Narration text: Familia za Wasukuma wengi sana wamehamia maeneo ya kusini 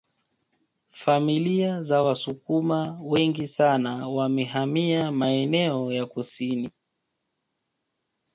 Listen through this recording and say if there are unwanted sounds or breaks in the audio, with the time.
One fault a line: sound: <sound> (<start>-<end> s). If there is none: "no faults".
no faults